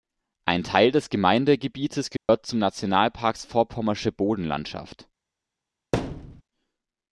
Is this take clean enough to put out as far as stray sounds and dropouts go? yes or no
no